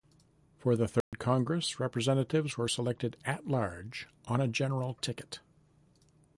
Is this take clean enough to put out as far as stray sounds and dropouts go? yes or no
no